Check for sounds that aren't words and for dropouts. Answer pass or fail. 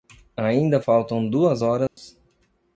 fail